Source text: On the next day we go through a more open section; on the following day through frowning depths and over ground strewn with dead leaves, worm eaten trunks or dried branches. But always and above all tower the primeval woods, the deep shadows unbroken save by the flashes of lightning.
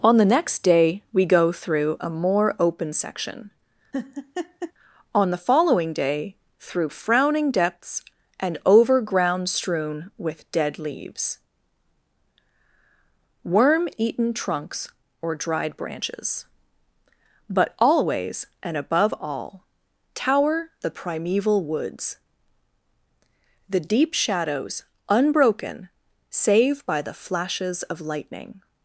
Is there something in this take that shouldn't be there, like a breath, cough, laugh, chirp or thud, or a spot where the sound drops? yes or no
yes